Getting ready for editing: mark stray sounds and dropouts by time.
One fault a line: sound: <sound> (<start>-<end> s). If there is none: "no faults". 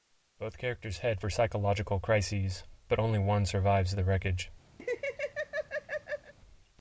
sound: laugh (4.8-6.3 s)